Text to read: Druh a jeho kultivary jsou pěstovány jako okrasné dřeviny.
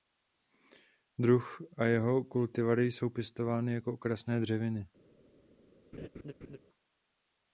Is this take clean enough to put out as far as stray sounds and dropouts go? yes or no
no